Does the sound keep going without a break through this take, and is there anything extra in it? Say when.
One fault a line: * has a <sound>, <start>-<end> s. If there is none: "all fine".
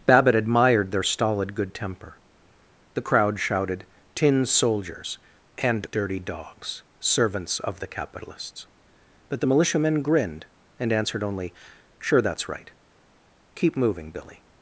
all fine